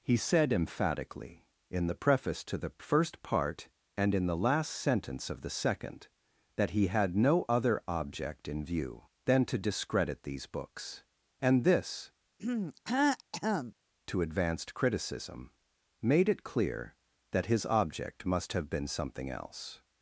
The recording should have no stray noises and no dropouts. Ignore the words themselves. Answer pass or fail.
fail